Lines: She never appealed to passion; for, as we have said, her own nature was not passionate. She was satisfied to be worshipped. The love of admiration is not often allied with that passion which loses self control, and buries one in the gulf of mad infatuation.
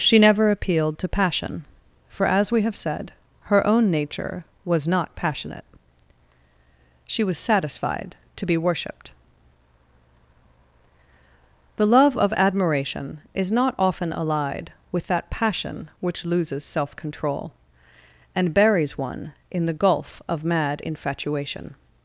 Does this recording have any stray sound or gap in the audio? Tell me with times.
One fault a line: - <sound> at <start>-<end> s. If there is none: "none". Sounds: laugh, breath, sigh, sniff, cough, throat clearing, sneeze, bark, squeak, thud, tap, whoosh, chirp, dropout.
none